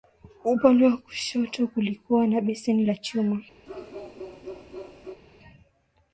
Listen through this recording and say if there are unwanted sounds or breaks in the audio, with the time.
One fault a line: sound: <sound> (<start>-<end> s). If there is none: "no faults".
sound: bark (3.7-5.2 s)